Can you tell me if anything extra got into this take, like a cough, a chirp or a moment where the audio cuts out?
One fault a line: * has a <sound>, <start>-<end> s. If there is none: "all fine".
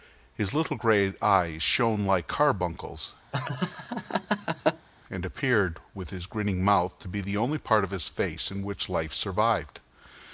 * has a laugh, 3.3-4.9 s